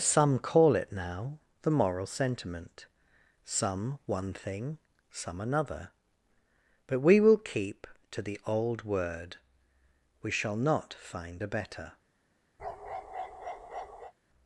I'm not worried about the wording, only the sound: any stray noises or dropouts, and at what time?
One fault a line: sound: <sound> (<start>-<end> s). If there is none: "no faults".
sound: bark (12.6-14.1 s)